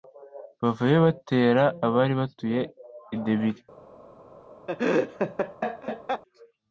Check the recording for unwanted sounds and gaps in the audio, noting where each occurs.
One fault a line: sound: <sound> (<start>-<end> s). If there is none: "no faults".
sound: laugh (4.7-6.2 s)